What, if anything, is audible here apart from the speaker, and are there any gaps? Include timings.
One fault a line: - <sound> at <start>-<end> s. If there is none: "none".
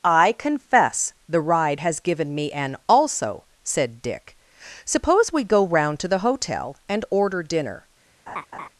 - laugh at 8.3-8.7 s